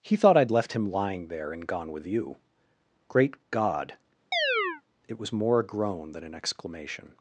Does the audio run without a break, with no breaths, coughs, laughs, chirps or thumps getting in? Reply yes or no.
no